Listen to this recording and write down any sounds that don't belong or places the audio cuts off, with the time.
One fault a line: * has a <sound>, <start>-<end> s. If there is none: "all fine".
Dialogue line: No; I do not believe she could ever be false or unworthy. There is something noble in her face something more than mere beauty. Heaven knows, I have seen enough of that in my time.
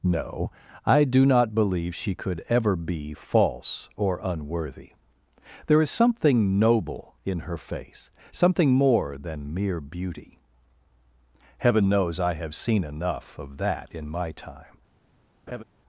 * has a laugh, 15.5-15.6 s